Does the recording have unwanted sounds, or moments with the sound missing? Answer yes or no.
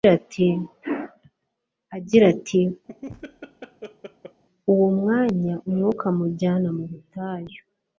yes